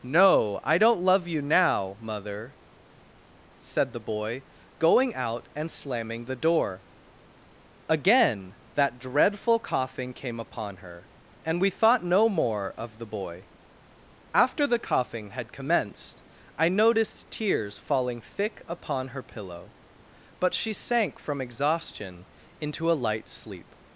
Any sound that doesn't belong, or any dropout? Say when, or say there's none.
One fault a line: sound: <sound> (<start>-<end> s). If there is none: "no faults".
no faults